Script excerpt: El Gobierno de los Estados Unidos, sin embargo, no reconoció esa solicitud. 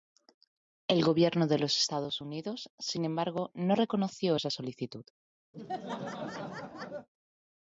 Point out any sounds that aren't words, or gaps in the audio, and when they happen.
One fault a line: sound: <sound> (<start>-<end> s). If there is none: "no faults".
sound: laugh (5.5-7.1 s)